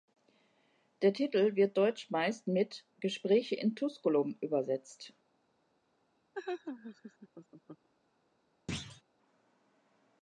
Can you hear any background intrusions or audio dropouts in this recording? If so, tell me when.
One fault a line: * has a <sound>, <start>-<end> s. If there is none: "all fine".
* has a laugh, 6.3-7.9 s
* has a thud, 8.7-9.0 s